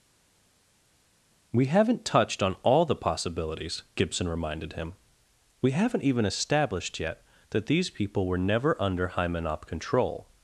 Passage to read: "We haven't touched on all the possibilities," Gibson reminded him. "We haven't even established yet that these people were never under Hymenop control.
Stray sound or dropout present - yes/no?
no